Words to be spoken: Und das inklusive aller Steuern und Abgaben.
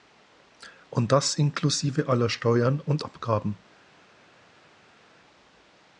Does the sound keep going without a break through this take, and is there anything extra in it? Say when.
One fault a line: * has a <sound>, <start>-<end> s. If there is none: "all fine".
all fine